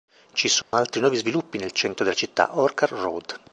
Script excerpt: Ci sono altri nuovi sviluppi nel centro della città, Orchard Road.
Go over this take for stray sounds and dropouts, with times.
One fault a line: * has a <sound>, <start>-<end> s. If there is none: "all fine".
* has a dropout, 0.6-0.7 s